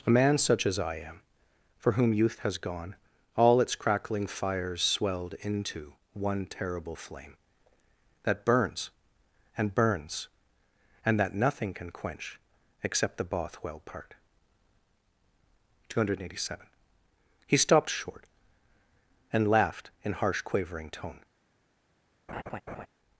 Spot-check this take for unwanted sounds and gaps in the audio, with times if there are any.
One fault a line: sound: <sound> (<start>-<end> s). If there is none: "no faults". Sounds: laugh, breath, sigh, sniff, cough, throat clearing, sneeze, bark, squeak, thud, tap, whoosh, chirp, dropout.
sound: laugh (22.3-22.9 s)